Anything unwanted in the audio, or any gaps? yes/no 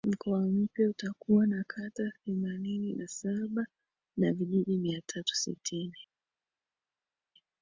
no